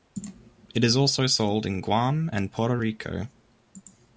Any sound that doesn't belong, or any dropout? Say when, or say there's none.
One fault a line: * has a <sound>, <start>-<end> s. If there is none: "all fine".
all fine